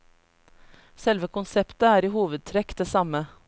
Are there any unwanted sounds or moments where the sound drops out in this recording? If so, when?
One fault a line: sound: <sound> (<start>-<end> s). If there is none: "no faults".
no faults